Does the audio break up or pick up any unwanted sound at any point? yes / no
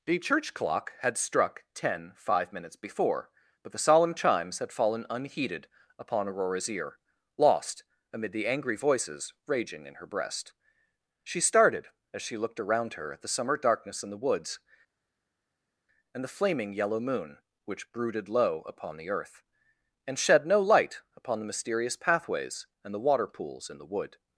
no